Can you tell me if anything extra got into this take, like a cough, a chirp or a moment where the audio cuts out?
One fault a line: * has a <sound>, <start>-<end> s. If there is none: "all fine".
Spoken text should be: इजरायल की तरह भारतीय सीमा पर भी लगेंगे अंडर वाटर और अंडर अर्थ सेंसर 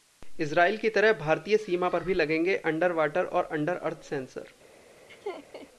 * has a laugh, 5.1-5.7 s